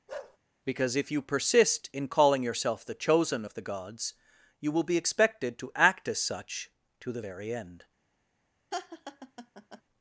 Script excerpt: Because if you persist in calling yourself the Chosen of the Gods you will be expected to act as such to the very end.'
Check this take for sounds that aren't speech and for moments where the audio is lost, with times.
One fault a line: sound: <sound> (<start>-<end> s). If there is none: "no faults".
sound: bark (0.1-0.4 s)
sound: laugh (8.7-9.8 s)